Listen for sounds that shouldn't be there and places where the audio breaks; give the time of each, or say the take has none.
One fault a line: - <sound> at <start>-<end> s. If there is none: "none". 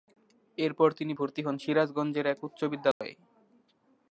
- dropout at 2.9-3.0 s